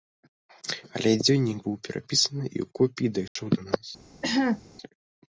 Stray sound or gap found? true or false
true